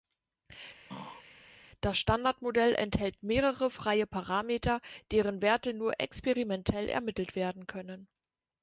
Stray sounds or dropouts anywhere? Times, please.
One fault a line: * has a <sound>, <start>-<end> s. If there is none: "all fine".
* has a throat clearing, 0.9-1.2 s